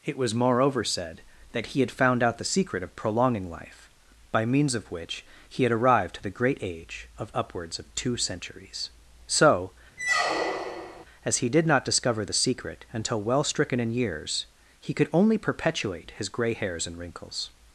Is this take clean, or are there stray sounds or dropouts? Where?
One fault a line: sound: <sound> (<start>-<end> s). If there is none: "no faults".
sound: squeak (10.0-11.1 s)